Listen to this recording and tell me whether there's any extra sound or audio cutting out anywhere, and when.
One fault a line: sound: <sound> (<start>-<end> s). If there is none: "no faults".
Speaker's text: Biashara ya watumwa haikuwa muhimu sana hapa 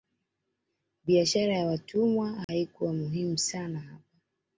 sound: dropout (2.4-2.5 s)